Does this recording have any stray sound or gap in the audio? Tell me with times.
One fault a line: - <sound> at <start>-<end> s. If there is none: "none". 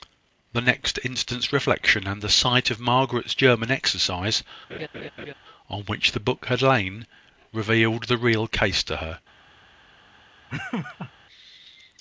- laugh at 4.7-5.3 s
- laugh at 10.5-11.1 s